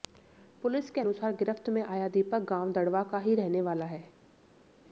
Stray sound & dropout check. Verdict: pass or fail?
pass